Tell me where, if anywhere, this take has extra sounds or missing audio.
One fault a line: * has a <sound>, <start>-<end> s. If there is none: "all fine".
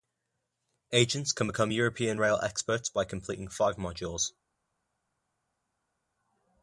all fine